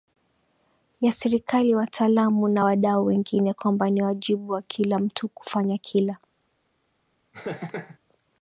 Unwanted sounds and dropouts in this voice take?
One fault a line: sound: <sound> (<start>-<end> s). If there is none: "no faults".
sound: laugh (7.3-8.0 s)